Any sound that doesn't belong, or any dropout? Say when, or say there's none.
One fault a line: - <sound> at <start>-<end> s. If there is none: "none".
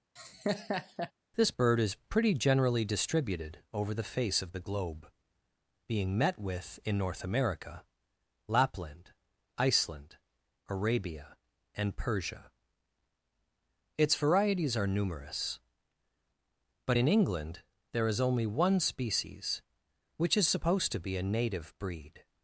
- laugh at 0.2-1.1 s